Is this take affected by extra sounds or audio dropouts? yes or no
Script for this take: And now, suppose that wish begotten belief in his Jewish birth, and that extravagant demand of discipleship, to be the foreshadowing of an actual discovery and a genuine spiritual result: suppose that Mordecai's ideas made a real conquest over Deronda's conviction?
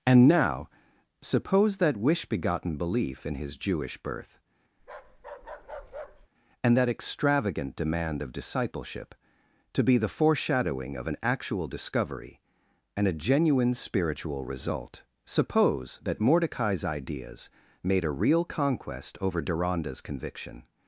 yes